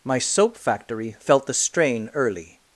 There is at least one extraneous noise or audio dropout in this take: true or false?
false